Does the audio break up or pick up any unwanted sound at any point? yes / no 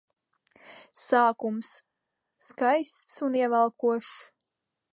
no